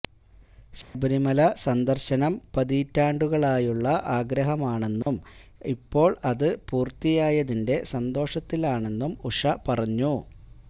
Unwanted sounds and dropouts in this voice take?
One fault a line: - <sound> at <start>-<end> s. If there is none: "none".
- dropout at 0.8-0.9 s
- dropout at 5.0-5.1 s